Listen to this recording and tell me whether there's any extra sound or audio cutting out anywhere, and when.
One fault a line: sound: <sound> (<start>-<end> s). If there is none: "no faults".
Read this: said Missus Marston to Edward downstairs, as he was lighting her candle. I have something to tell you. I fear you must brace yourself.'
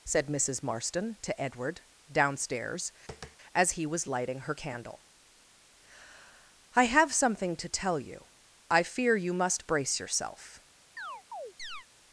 sound: tap (3.1-3.4 s)
sound: chirp (11.0-11.9 s)